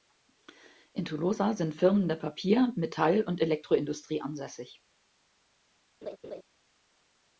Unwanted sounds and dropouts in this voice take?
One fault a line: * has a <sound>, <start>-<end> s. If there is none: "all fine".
* has a laugh, 6.0-6.4 s